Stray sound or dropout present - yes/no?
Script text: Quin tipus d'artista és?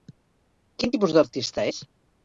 no